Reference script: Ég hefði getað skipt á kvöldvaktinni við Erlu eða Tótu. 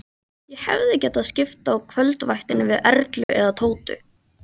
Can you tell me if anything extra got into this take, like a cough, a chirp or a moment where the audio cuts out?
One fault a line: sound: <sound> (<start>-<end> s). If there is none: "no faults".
sound: dropout (3.2-3.3 s)